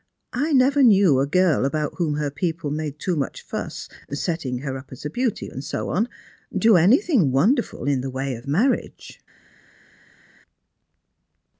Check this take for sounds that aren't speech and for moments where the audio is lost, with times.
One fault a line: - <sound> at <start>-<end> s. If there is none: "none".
none